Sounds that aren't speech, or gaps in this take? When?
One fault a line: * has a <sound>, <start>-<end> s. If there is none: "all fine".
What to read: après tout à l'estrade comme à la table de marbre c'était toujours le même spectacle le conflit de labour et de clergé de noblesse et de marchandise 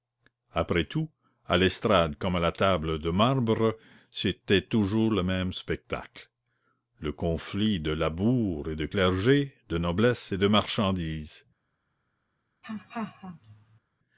* has a laugh, 12.6-13.8 s